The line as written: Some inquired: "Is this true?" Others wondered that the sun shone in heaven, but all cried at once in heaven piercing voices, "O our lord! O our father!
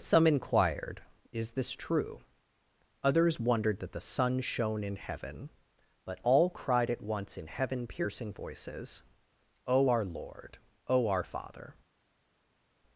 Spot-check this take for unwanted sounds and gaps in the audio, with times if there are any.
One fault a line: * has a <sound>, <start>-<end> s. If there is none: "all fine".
all fine